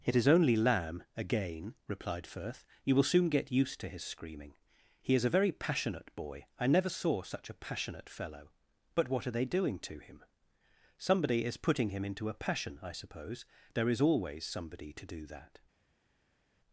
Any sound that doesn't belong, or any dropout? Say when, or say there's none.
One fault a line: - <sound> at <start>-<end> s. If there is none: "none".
none